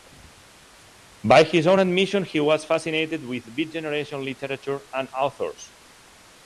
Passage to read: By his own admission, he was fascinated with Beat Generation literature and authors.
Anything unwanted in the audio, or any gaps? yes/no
no